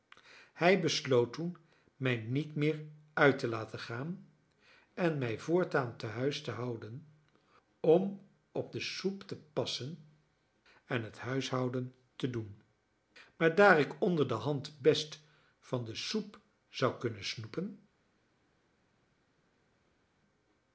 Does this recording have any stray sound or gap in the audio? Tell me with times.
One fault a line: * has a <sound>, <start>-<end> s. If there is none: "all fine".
all fine